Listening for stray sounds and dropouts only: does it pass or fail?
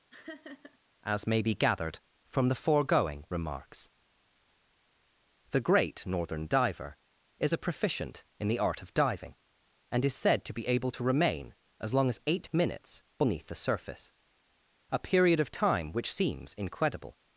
fail